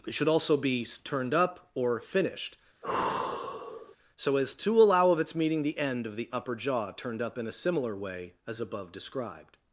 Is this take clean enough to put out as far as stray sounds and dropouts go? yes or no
no